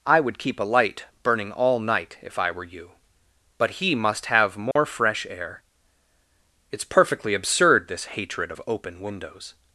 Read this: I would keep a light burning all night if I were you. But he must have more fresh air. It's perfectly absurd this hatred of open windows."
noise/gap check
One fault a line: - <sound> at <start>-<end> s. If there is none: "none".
- dropout at 4.7-4.8 s